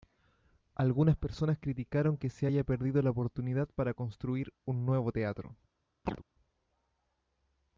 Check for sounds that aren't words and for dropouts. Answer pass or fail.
fail